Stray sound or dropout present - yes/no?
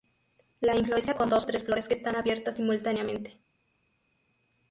no